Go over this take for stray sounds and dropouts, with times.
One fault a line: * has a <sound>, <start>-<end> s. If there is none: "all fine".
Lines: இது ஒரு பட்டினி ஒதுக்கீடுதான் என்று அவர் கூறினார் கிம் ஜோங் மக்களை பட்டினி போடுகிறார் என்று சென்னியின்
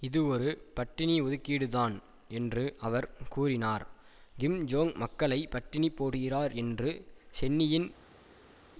all fine